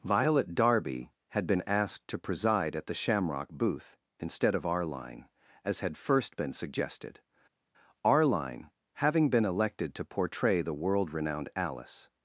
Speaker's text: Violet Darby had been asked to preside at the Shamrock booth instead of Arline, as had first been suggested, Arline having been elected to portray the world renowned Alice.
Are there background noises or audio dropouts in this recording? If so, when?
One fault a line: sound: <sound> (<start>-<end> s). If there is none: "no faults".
no faults